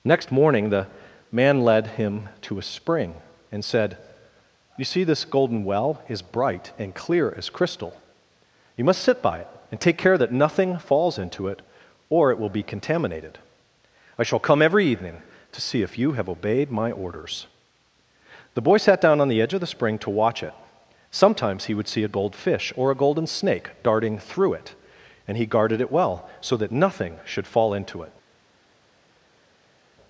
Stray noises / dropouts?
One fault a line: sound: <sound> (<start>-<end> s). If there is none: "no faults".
no faults